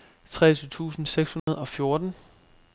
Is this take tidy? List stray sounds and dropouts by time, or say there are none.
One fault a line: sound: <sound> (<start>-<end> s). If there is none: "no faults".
sound: dropout (1.4-1.5 s)